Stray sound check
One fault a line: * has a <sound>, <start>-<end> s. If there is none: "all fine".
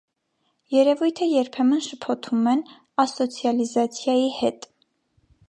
all fine